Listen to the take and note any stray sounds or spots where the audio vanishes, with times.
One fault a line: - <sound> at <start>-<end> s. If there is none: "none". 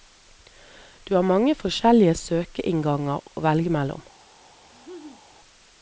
- laugh at 4.6-5.2 s